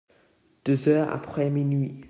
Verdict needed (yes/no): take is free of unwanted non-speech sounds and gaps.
yes